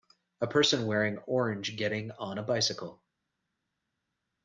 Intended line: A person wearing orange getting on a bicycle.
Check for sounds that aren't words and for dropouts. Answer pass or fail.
pass